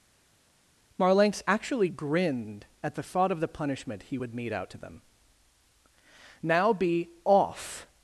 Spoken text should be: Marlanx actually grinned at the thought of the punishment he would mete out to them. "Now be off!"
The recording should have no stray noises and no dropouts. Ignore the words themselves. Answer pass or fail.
pass